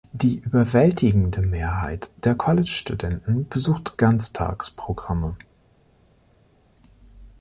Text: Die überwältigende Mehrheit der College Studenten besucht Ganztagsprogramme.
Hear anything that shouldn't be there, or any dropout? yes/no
no